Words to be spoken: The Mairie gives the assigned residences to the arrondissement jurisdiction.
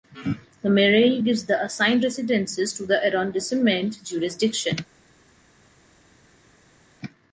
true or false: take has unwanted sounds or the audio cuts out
false